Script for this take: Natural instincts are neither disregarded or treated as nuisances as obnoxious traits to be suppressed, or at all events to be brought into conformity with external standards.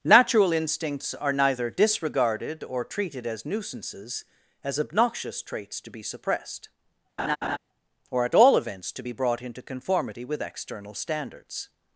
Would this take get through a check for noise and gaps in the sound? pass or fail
fail